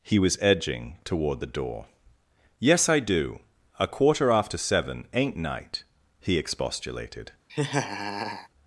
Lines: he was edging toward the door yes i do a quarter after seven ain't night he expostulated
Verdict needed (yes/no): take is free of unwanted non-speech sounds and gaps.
no